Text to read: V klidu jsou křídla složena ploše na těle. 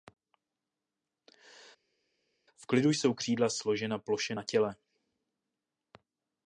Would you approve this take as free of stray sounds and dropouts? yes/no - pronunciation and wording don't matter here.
yes